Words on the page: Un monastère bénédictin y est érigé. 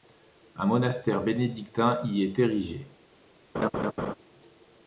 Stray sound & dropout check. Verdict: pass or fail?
fail